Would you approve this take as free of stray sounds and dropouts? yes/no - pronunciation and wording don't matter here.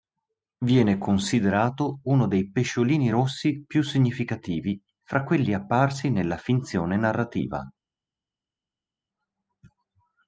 yes